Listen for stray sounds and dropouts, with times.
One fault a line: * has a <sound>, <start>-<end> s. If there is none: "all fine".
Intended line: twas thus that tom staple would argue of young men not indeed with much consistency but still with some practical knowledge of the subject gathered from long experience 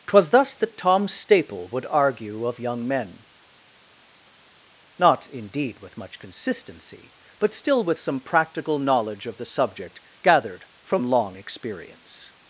all fine